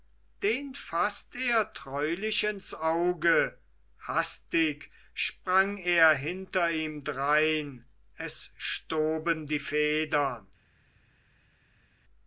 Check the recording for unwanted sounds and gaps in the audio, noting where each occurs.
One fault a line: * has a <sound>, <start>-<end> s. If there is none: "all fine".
all fine